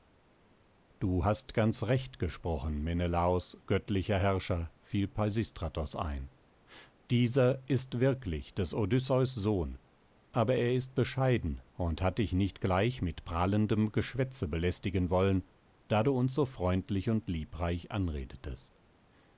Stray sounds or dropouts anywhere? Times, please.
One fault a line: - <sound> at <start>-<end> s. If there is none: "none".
none